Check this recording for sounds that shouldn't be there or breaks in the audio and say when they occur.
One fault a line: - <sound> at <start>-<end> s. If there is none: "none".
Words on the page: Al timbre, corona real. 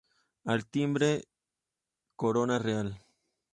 none